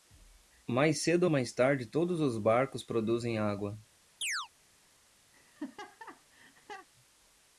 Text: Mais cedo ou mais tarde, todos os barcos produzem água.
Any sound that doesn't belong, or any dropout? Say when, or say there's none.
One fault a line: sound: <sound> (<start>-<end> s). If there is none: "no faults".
sound: chirp (4.2-4.5 s)
sound: laugh (5.3-6.9 s)